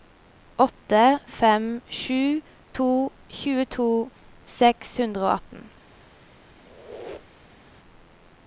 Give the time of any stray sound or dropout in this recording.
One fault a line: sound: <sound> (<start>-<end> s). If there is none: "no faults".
sound: squeak (6.5-7.6 s)